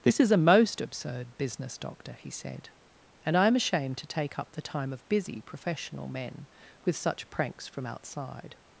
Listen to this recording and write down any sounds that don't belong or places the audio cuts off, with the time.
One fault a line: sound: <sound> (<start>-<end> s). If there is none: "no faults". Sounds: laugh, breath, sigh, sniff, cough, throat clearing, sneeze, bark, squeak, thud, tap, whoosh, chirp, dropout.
no faults